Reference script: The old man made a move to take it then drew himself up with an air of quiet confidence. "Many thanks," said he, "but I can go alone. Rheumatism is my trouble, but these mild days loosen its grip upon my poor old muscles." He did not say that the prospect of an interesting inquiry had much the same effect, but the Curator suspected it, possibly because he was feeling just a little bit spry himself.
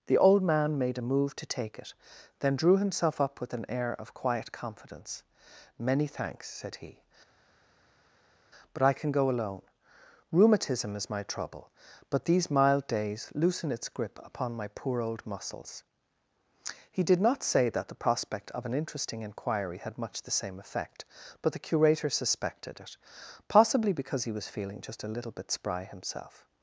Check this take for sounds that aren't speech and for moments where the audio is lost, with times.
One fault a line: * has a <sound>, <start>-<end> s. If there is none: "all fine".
all fine